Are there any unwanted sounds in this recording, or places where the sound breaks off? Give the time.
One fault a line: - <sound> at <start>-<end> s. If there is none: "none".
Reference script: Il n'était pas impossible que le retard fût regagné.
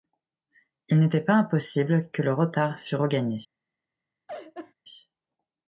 - laugh at 4.3-4.7 s